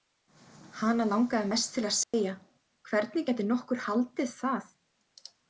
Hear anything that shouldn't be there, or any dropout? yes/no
yes